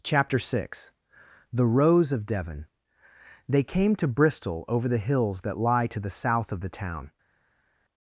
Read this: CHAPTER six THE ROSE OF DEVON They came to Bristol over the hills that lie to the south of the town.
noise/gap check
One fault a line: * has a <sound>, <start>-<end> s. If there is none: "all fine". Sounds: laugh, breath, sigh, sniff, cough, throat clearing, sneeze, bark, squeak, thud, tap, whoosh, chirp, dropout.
all fine